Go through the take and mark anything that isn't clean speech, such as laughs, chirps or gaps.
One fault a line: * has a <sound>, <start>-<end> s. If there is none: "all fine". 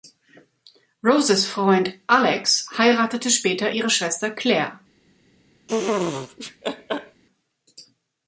* has a laugh, 5.7-7.2 s